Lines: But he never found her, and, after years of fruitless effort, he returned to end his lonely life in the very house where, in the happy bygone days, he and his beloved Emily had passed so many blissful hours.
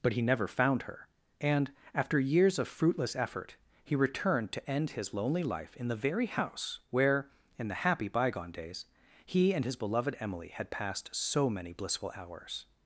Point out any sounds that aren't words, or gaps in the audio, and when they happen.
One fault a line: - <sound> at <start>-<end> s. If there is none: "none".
none